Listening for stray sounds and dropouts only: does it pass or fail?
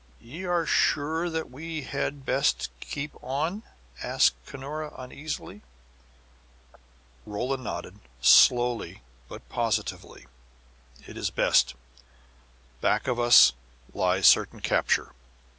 pass